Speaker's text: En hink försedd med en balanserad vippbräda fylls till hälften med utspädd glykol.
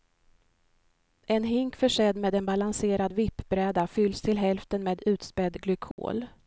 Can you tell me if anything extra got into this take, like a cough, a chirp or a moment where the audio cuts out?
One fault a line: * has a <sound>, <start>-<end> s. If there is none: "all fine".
* has a dropout, 5.9-6.0 s